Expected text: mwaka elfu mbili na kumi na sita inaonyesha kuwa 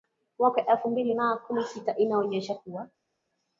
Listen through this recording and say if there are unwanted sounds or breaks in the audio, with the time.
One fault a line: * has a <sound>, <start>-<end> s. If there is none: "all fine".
all fine